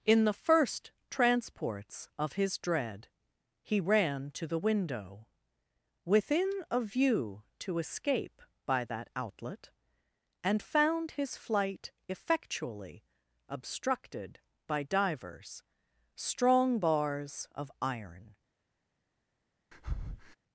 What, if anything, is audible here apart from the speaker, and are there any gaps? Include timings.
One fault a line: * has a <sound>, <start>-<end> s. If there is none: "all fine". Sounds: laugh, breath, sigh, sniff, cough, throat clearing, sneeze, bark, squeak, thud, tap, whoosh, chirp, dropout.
* has a breath, 19.7-20.4 s